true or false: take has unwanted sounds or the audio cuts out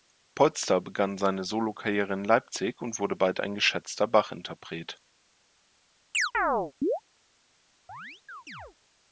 true